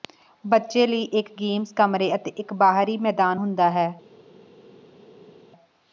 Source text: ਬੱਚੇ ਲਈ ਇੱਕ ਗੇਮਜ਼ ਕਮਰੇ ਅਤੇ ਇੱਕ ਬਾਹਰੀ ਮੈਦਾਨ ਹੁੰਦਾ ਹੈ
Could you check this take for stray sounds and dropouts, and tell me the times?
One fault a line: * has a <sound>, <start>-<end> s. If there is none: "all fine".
all fine